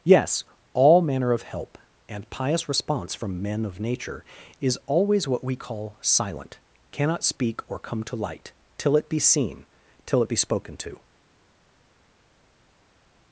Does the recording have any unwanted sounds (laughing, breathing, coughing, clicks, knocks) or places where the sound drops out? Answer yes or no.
no